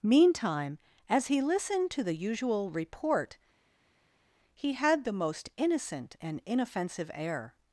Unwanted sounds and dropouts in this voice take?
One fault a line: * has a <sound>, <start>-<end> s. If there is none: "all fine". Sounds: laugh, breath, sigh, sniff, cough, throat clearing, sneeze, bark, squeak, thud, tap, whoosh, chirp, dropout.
all fine